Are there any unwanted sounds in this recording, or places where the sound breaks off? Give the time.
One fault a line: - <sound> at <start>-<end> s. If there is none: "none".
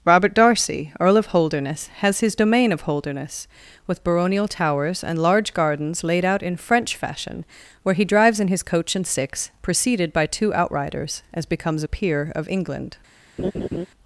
- laugh at 13.4-13.9 s